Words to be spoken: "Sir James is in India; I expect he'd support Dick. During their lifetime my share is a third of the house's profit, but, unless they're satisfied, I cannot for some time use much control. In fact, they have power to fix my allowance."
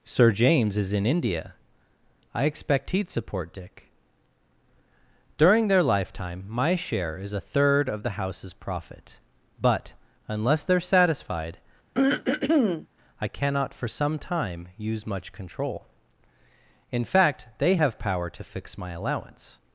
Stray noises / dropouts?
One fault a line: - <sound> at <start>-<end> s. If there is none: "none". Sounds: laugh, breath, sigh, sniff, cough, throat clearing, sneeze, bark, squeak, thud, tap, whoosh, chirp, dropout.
- throat clearing at 11.9-12.9 s